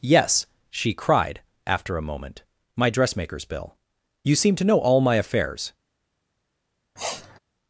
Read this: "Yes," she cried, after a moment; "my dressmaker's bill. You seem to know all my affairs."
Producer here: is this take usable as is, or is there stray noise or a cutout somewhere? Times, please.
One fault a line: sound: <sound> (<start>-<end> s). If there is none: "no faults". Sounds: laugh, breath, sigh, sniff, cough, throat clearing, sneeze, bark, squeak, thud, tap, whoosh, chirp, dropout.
sound: sniff (7.0-7.4 s)